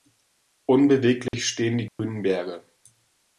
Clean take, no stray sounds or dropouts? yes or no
no